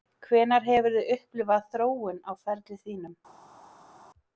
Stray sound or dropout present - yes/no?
no